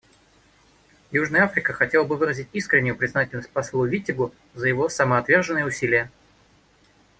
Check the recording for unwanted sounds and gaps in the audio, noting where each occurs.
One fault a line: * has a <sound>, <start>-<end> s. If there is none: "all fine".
all fine